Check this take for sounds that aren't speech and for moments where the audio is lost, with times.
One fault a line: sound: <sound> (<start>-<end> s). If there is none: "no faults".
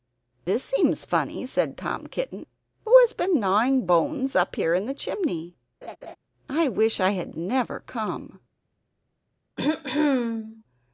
sound: laugh (5.8-6.2 s)
sound: throat clearing (9.6-10.6 s)